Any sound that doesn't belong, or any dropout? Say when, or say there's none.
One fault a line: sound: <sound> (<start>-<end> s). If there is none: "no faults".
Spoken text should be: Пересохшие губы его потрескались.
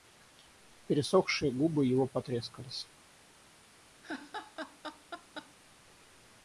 sound: laugh (4.0-5.5 s)